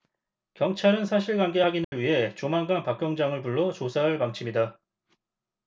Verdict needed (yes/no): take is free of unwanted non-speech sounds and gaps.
no